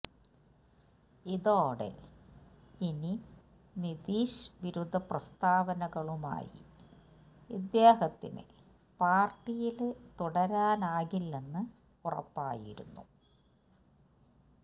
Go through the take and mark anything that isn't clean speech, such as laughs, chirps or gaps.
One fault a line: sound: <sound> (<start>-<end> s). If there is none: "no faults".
no faults